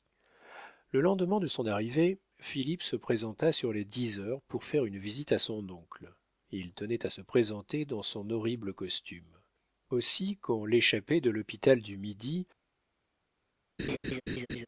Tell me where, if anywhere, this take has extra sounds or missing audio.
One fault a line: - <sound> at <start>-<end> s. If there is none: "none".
- laugh at 13.8-14.7 s